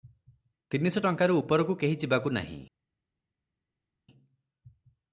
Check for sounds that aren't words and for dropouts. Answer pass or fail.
pass